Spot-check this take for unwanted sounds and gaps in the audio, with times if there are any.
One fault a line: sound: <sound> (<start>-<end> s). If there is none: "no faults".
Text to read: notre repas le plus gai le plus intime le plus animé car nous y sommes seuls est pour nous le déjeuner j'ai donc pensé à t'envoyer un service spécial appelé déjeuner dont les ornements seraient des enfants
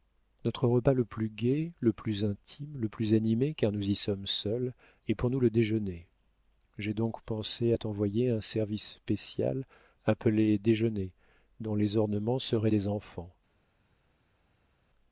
no faults